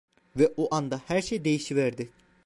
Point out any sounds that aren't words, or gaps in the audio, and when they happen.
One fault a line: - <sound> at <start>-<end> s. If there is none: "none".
none